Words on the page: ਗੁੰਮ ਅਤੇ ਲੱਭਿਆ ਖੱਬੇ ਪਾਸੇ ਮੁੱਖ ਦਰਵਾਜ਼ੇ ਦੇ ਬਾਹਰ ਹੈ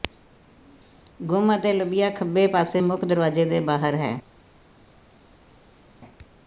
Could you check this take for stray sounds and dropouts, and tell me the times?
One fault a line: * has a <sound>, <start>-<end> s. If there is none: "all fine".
all fine